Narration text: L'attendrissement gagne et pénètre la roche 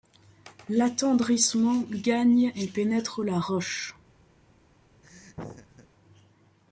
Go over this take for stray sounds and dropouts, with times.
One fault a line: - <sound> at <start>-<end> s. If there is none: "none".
- laugh at 5.0-5.9 s